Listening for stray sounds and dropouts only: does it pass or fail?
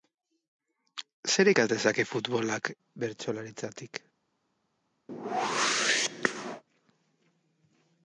fail